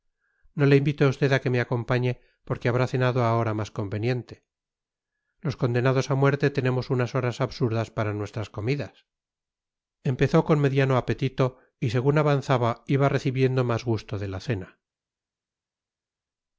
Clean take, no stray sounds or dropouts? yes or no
yes